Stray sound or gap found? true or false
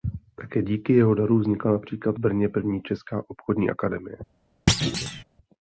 true